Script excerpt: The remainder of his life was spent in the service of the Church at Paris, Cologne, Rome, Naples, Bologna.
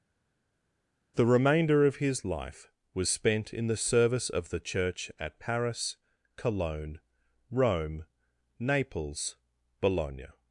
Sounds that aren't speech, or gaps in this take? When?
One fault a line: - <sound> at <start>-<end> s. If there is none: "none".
none